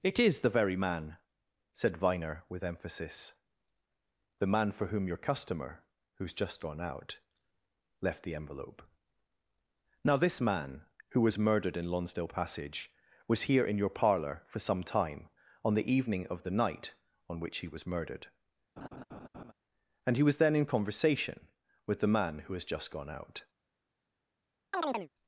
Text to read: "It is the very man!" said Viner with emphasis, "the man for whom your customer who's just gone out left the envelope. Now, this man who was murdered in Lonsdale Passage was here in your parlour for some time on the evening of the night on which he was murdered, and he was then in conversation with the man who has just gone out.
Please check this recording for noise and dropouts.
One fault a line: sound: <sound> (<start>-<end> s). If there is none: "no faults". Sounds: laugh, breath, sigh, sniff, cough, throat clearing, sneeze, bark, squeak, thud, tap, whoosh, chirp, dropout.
sound: laugh (18.8-19.5 s)
sound: chirp (24.7-25.1 s)